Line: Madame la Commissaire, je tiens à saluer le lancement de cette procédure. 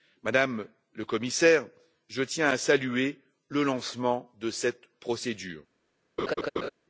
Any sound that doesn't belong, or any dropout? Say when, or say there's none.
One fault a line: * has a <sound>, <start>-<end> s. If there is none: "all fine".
* has a laugh, 6.2-6.7 s